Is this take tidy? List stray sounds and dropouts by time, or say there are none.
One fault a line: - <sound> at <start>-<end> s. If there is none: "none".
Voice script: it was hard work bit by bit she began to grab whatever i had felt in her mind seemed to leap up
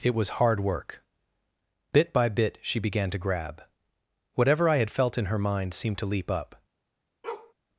- bark at 7.2-7.5 s